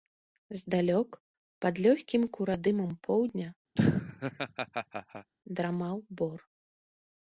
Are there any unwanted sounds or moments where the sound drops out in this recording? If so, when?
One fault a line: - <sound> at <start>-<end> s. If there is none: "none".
- laugh at 3.8-5.3 s